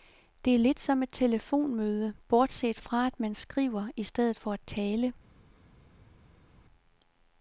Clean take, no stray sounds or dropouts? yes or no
yes